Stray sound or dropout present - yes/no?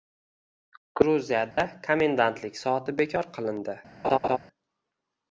yes